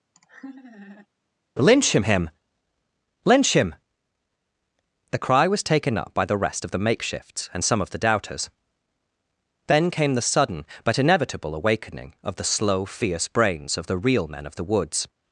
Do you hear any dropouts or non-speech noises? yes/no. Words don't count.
yes